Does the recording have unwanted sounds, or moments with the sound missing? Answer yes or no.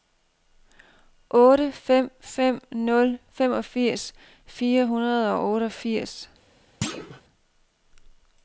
yes